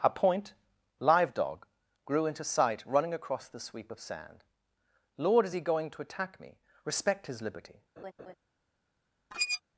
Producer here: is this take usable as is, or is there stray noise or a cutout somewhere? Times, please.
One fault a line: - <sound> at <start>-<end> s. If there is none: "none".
- laugh at 8.0-8.4 s
- squeak at 9.3-9.6 s